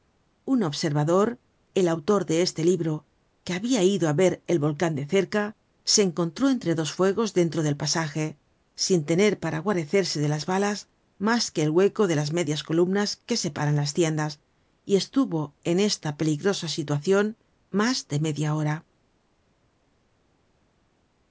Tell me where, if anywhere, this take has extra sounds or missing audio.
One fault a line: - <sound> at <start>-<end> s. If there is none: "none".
none